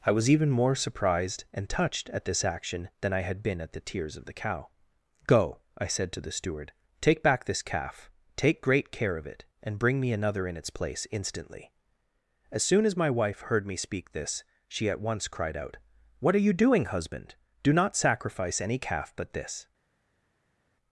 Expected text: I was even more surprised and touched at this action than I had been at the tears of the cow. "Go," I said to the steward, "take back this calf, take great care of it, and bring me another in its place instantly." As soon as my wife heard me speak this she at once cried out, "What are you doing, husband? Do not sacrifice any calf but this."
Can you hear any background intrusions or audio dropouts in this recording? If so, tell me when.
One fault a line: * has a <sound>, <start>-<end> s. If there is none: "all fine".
all fine